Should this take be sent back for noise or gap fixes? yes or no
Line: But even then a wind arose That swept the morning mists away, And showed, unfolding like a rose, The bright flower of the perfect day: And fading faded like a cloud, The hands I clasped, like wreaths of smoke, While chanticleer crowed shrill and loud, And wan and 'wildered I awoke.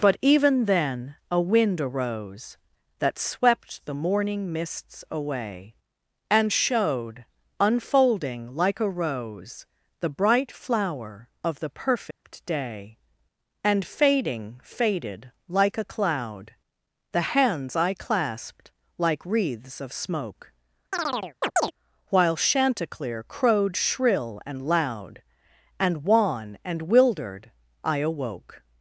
yes